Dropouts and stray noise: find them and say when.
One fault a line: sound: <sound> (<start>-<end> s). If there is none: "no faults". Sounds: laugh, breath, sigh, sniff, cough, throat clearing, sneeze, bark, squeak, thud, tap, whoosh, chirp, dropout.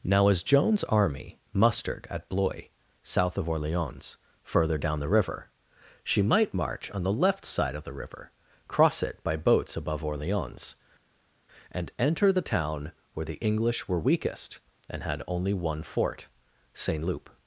no faults